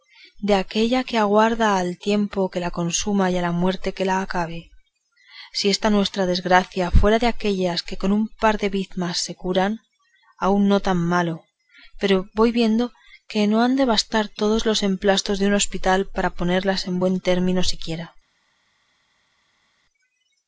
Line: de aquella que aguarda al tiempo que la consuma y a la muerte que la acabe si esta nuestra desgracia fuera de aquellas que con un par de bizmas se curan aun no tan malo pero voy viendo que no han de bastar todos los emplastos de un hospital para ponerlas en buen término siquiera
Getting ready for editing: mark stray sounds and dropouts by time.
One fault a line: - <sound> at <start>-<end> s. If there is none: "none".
none